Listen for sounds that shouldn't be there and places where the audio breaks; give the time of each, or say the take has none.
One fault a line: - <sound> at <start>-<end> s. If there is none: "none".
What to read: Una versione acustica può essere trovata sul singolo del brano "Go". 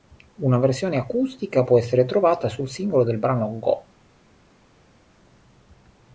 none